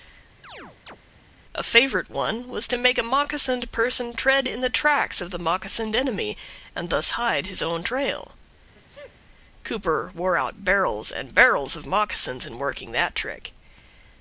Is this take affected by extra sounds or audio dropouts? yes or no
yes